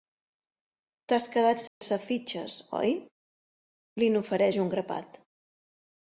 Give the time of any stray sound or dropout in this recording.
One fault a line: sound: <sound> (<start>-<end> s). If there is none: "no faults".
sound: dropout (1.7-1.8 s)